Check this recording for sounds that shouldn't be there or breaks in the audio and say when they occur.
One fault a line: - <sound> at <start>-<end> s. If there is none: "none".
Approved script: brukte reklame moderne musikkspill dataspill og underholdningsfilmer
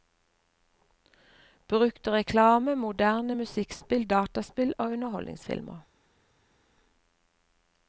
none